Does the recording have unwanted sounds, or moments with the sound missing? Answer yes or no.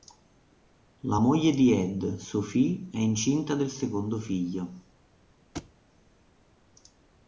yes